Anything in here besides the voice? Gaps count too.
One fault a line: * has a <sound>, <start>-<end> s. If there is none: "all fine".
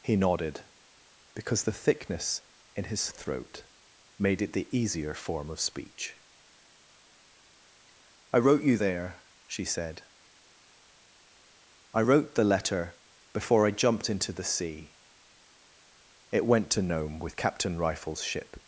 all fine